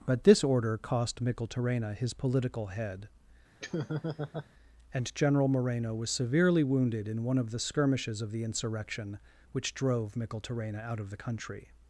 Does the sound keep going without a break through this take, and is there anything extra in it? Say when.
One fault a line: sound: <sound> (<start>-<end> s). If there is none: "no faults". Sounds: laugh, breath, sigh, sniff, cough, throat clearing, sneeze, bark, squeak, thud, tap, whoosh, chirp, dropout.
sound: laugh (3.6-4.5 s)